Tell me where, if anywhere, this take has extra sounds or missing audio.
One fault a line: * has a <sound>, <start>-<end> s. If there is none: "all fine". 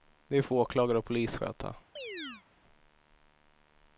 * has a chirp, 2.0-2.4 s